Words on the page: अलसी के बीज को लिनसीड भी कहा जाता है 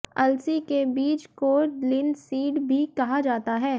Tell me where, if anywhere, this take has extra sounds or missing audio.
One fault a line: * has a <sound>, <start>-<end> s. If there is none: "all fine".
all fine